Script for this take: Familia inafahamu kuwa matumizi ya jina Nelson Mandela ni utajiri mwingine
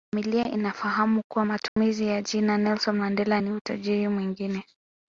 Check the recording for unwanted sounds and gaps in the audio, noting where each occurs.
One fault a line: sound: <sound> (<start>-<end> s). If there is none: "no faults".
sound: dropout (1.7-1.8 s)